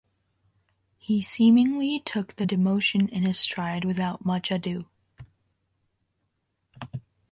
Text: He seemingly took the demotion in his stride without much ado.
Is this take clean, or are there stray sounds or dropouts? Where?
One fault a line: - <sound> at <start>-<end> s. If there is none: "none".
none